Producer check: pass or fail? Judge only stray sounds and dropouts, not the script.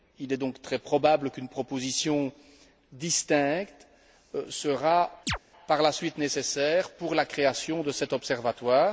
fail